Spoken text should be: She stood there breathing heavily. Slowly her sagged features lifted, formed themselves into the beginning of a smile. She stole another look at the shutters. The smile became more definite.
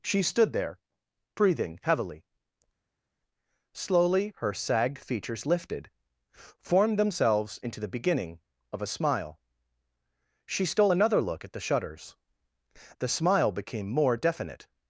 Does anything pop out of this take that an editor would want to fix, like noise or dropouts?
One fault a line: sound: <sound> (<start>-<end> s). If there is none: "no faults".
no faults